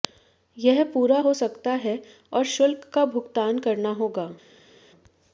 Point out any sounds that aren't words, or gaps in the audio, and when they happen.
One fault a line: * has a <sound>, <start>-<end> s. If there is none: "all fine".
all fine